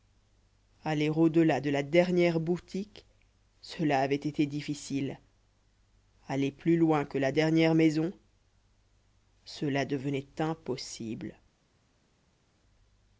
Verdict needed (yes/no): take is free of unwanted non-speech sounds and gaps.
yes